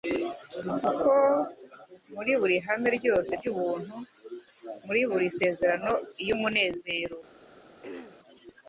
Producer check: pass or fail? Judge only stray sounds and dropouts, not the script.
fail